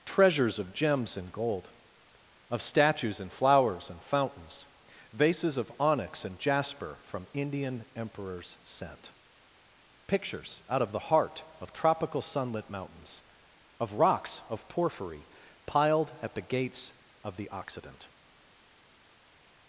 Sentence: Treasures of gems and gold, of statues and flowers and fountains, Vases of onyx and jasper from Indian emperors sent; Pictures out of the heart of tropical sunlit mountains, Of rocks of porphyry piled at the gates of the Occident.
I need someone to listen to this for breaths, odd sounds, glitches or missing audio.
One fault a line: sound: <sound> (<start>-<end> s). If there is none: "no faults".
no faults